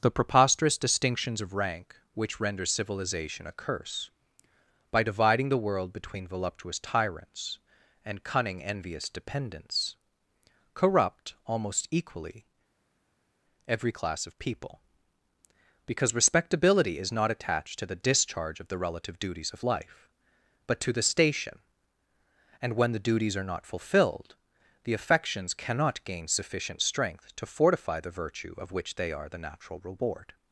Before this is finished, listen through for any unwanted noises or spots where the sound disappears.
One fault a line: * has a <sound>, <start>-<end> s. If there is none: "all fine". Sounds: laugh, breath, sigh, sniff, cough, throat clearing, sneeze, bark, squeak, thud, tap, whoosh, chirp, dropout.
all fine